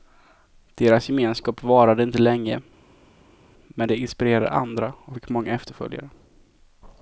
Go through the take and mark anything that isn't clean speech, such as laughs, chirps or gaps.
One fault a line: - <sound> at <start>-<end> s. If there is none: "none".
none